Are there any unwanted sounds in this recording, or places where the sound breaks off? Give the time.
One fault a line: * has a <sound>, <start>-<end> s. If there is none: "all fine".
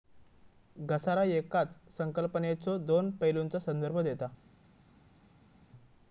all fine